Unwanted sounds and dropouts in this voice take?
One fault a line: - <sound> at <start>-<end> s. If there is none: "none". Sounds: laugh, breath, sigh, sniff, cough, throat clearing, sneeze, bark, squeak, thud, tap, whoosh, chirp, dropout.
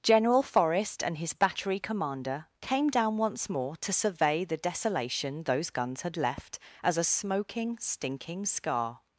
none